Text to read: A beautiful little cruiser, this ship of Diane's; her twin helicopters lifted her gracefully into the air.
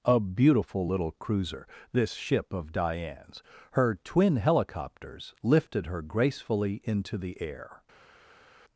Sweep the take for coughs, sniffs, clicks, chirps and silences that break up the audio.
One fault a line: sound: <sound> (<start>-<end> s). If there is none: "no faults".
no faults